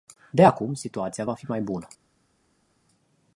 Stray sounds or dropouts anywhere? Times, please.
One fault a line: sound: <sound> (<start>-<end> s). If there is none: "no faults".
no faults